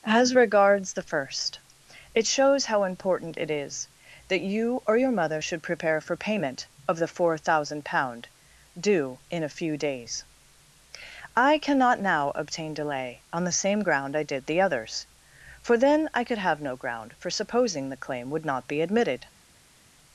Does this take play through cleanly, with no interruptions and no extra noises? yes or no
yes